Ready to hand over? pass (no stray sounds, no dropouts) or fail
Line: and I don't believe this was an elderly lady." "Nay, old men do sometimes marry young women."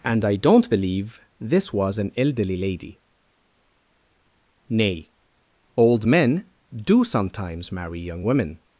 pass